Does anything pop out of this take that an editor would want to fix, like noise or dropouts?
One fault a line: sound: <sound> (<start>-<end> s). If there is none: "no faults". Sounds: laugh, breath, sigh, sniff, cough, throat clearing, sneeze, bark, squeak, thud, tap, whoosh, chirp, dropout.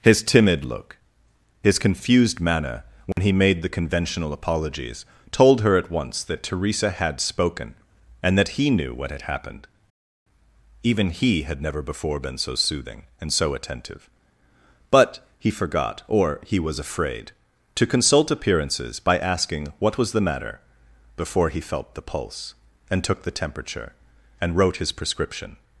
sound: dropout (3.1-3.2 s)